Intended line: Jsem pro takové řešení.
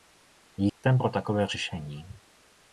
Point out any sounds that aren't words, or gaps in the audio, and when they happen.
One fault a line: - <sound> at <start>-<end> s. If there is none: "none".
- dropout at 0.7-0.8 s